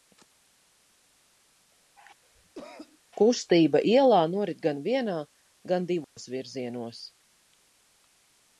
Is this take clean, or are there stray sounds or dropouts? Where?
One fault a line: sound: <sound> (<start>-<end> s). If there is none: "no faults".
sound: cough (2.2-3.0 s)
sound: dropout (6.0-6.2 s)